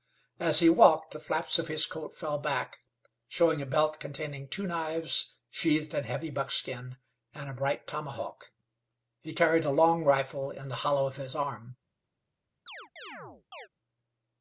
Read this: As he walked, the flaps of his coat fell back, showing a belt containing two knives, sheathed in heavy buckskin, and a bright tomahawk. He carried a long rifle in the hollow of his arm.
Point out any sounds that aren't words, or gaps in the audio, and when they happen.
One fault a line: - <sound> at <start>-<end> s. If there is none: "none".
- chirp at 12.7-13.7 s